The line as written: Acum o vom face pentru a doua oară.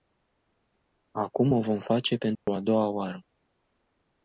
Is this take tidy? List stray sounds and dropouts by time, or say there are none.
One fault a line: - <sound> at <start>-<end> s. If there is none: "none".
- dropout at 2.4-2.5 s